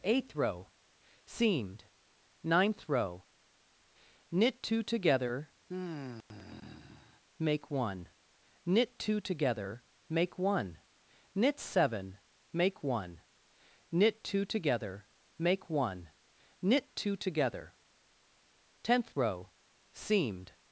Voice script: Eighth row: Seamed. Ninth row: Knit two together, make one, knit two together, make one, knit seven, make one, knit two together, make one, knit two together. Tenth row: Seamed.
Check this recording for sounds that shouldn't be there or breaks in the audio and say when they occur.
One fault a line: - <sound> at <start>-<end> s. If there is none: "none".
- sigh at 5.7-7.2 s